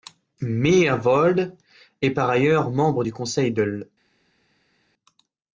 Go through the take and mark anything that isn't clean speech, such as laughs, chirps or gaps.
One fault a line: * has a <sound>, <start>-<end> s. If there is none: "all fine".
all fine